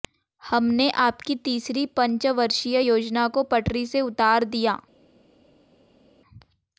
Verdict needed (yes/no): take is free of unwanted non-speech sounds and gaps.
yes